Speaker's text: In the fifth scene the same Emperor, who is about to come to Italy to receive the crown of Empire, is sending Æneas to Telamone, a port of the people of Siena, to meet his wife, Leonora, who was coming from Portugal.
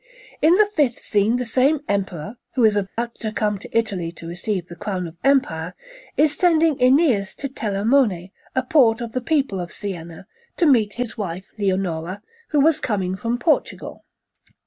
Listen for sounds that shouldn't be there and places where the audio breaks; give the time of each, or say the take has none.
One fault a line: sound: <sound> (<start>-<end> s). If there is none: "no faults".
sound: dropout (2.9-3.0 s)